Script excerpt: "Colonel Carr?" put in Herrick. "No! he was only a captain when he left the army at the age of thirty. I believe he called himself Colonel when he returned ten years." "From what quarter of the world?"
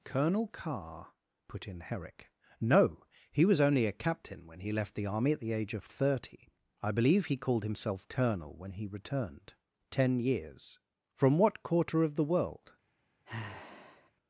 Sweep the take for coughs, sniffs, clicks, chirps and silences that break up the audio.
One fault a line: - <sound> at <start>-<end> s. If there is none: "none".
- sigh at 13.3-14.1 s